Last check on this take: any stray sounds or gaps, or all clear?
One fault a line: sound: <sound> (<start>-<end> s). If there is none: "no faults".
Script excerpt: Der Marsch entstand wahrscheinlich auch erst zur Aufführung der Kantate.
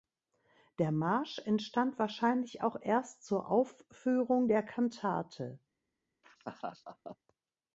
sound: laugh (6.2-7.2 s)